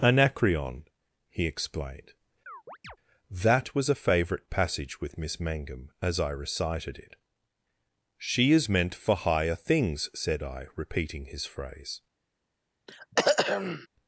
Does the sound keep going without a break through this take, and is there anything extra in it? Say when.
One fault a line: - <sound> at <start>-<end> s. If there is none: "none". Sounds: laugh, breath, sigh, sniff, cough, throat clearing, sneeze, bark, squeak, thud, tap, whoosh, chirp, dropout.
- chirp at 2.5-3.0 s
- throat clearing at 12.9-13.9 s